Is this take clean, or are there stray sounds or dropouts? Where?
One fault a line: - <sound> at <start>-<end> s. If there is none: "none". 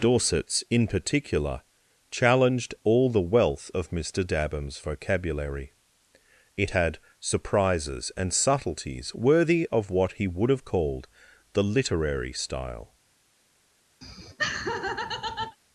- laugh at 14.0-15.6 s